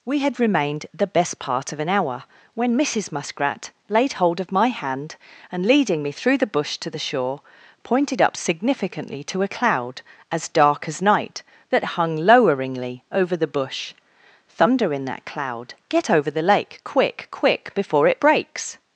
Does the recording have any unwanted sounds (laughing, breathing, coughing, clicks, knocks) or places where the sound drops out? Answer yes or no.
no